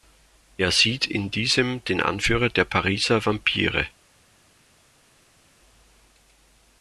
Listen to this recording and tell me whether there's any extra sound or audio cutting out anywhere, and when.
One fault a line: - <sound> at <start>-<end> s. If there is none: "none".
none